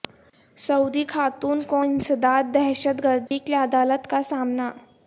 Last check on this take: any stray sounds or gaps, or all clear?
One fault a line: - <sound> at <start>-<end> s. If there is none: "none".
- dropout at 3.3-3.3 s